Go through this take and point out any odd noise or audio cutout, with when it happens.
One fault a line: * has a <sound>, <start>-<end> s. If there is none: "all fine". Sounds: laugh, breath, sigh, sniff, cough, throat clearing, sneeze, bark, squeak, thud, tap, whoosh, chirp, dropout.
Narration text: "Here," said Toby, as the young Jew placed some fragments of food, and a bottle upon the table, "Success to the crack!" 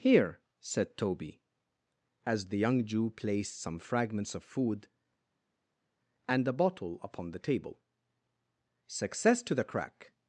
all fine